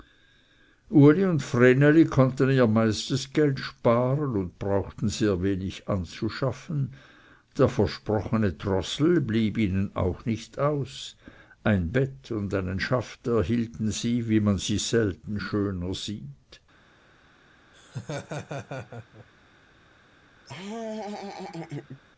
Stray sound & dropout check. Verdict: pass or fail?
fail